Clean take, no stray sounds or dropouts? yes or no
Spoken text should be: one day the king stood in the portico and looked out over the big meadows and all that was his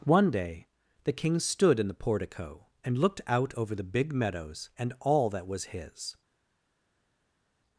yes